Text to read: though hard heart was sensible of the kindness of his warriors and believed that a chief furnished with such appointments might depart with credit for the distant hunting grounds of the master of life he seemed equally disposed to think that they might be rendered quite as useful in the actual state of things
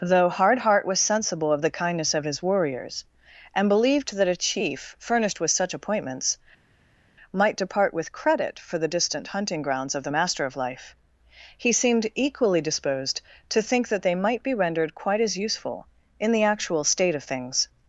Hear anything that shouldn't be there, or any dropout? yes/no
no